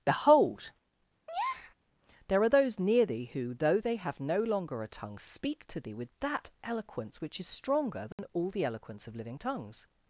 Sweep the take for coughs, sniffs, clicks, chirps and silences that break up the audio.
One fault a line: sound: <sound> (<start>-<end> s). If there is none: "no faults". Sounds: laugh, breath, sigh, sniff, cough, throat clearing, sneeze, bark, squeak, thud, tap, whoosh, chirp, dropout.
sound: breath (1.3-1.7 s)
sound: dropout (8.1-8.2 s)